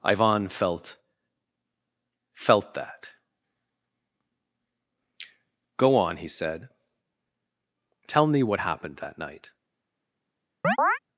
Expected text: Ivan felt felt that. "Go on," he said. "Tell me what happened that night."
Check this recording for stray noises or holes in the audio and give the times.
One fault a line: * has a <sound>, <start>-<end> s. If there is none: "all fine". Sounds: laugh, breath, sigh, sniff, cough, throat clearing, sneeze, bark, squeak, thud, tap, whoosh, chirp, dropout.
* has a chirp, 10.6-11.0 s